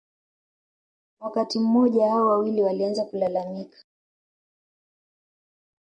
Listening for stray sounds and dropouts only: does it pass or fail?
pass